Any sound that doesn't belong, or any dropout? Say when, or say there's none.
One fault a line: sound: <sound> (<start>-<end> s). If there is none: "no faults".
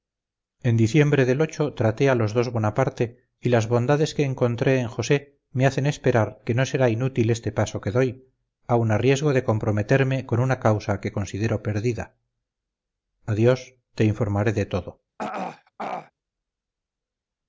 sound: throat clearing (15.2-16.1 s)